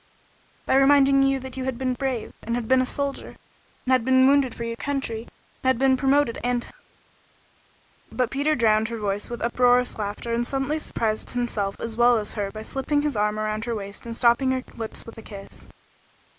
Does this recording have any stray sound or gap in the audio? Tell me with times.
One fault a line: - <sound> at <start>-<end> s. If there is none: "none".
none